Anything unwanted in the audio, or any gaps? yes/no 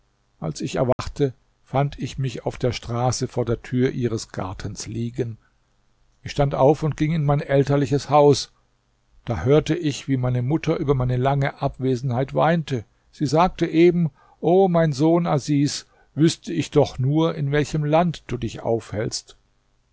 yes